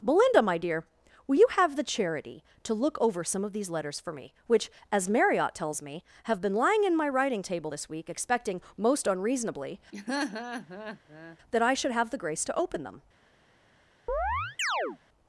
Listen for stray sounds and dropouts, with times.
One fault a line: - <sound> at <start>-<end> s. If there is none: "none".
- laugh at 9.9-11.4 s
- chirp at 14.1-15.0 s